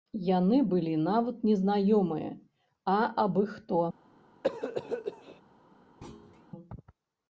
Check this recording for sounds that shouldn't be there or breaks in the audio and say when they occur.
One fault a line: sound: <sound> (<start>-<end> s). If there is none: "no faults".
sound: cough (4.4-5.4 s)
sound: thud (6.0-6.5 s)